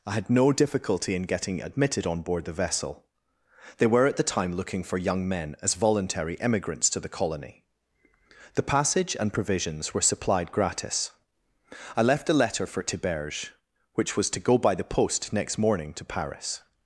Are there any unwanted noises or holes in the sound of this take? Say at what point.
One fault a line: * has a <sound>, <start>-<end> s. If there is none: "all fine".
all fine